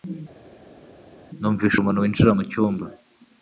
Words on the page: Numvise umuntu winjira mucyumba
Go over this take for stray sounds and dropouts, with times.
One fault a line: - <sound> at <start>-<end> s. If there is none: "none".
none